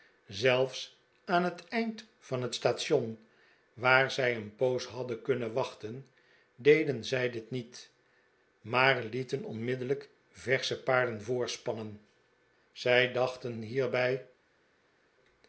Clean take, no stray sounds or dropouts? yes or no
yes